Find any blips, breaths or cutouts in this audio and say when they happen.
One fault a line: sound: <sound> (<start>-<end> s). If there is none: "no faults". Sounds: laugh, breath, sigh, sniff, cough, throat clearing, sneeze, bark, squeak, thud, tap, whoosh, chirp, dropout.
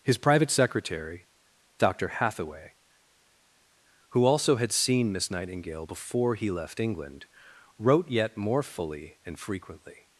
no faults